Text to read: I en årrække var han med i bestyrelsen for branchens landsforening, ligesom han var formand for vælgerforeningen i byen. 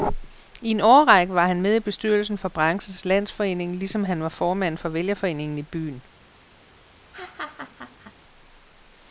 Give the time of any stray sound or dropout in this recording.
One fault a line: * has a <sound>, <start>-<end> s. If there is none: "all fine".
* has a laugh, 7.1-8.1 s